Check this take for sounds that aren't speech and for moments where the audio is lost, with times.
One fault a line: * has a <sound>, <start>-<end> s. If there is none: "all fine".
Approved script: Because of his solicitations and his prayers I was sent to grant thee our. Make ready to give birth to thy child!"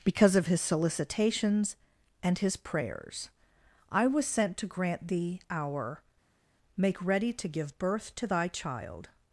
all fine